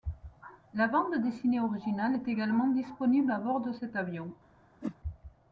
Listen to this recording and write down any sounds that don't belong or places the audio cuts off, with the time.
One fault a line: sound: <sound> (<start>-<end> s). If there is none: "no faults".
sound: whoosh (4.8-5.0 s)